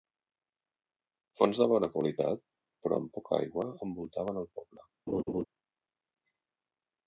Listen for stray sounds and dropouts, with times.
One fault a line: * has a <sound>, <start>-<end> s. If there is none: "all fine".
* has a laugh, 5.1-5.5 s